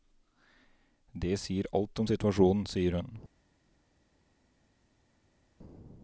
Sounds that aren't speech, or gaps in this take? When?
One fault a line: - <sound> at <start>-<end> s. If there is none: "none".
none